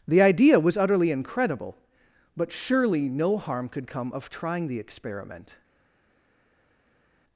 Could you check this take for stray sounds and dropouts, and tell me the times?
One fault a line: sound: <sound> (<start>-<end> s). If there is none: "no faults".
no faults